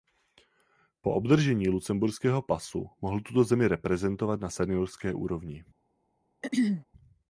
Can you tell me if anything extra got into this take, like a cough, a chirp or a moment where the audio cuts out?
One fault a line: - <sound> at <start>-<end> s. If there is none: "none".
- throat clearing at 6.4-6.8 s